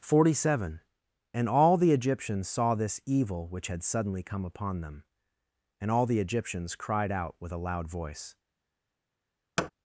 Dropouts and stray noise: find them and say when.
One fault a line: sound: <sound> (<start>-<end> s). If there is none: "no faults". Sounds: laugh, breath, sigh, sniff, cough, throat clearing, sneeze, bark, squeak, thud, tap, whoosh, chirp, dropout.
sound: thud (9.6-9.7 s)